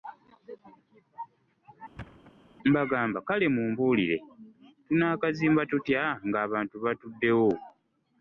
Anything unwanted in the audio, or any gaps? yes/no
yes